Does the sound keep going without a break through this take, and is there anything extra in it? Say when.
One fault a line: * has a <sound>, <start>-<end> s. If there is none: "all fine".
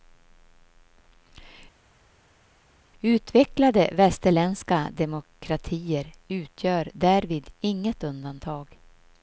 all fine